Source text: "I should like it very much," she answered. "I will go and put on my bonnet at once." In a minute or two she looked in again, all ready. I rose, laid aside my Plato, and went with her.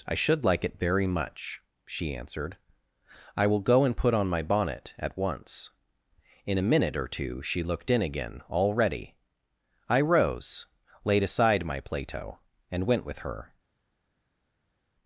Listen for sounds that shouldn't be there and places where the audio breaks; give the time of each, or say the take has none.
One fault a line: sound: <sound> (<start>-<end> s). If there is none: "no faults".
no faults